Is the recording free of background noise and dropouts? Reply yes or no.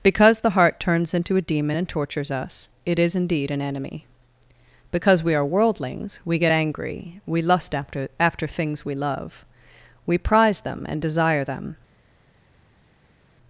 yes